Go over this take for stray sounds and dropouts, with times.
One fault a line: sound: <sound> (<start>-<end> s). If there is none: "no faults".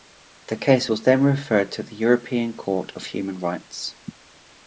no faults